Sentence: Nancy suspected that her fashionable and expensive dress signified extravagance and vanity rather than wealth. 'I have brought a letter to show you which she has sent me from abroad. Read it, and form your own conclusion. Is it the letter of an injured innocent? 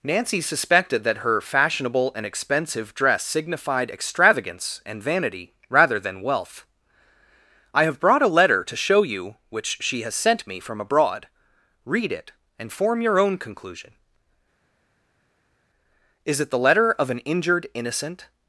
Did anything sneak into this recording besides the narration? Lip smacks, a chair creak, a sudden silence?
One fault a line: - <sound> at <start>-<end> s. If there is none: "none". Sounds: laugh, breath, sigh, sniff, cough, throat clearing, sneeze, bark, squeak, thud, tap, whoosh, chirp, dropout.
none